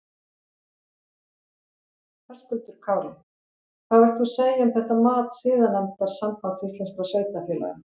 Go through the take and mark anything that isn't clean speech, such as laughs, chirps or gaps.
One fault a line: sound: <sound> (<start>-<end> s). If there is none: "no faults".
no faults